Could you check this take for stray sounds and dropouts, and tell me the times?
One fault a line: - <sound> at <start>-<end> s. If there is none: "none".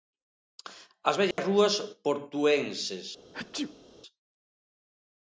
- dropout at 1.3-1.4 s
- sneeze at 3.3-4.0 s